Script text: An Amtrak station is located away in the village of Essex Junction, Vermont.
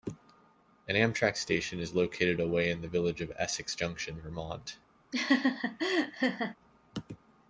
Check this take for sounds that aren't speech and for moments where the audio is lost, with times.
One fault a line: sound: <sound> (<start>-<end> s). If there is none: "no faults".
sound: laugh (5.1-6.6 s)